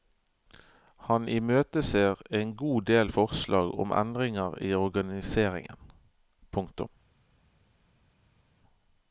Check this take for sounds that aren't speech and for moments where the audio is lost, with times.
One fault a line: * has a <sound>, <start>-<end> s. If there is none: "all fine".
all fine